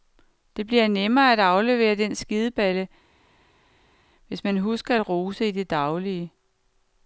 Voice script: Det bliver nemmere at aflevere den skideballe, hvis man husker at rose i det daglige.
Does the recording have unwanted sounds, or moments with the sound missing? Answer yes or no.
no